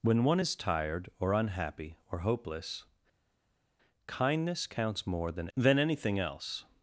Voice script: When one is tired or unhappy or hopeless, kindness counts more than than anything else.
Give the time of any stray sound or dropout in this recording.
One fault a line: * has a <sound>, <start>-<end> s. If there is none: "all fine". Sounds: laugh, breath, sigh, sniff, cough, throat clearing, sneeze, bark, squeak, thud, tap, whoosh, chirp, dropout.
all fine